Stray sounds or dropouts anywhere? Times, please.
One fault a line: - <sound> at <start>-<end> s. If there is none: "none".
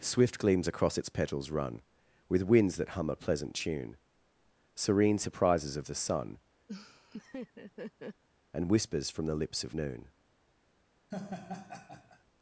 - laugh at 6.7-8.2 s
- laugh at 11.1-12.2 s